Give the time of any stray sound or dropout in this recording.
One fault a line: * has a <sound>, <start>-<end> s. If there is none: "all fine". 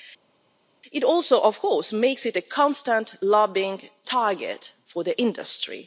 all fine